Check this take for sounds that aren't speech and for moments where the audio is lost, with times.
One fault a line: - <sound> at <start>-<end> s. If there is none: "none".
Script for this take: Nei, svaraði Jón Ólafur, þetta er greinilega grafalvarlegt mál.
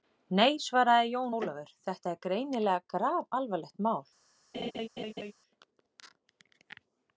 - laugh at 4.5-5.3 s